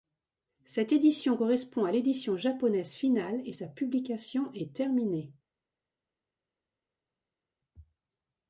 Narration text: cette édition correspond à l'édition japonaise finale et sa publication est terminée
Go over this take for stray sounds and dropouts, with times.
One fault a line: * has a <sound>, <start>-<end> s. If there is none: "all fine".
all fine